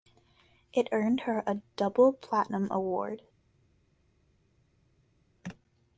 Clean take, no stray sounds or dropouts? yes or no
yes